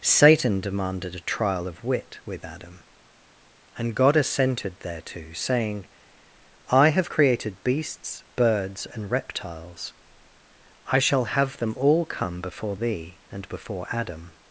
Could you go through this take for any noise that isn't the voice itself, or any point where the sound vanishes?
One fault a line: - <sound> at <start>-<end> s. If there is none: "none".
none